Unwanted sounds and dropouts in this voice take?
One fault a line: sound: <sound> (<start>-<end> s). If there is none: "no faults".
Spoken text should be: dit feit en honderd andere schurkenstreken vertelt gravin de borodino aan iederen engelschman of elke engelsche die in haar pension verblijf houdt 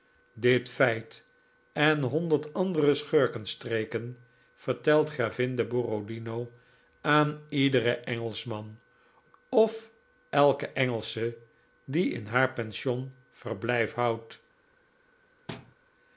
sound: thud (15.5-15.8 s)